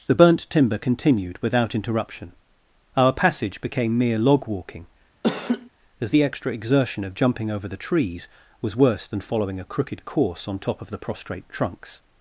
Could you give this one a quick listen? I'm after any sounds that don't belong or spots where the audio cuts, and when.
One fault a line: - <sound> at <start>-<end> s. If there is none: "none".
- laugh at 5.2-5.7 s